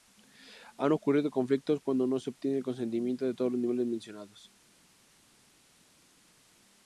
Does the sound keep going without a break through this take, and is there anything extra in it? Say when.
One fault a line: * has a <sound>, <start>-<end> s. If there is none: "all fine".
all fine